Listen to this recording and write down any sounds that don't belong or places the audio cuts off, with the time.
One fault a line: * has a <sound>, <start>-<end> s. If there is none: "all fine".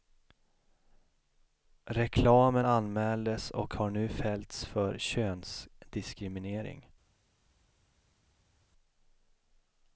all fine